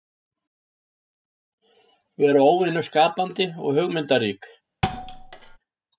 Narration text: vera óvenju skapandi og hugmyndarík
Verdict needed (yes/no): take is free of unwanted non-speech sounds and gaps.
no